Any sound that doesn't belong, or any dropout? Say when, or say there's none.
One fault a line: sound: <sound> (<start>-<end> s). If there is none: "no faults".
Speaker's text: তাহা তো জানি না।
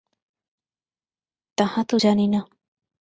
no faults